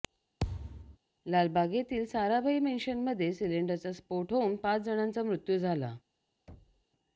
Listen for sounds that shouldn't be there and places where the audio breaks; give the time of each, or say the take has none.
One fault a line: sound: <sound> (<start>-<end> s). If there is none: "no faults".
sound: thud (0.4-1.0 s)
sound: thud (6.5-6.9 s)